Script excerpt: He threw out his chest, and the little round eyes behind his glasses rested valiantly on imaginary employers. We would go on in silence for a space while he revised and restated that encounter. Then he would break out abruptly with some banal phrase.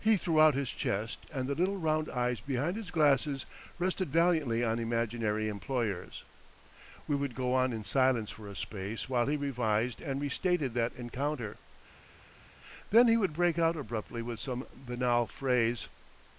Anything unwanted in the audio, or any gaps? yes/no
no